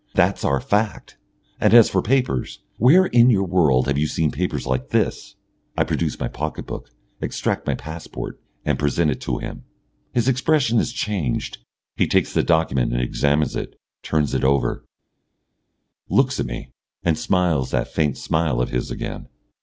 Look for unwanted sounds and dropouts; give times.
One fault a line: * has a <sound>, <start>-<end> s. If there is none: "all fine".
all fine